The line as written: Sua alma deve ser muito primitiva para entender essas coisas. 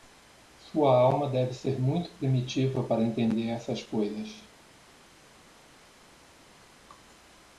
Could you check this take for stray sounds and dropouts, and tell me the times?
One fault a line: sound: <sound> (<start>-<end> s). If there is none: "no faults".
no faults